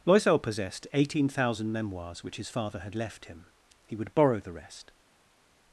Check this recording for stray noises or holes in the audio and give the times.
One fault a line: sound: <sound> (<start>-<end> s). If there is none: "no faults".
no faults